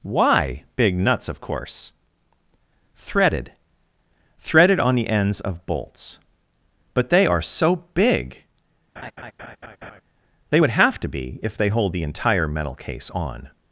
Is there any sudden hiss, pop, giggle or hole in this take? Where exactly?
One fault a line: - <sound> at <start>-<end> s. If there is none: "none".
- laugh at 9.0-10.0 s